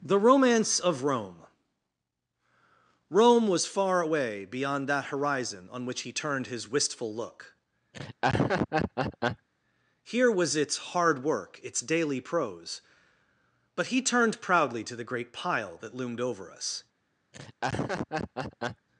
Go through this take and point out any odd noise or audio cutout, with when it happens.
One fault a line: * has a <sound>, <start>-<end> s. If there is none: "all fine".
* has a laugh, 7.9-9.5 s
* has a laugh, 17.3-18.9 s